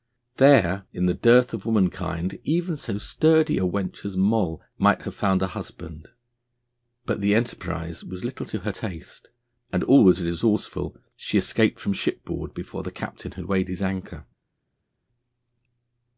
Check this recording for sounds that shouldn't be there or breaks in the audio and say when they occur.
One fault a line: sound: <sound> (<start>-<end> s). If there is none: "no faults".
no faults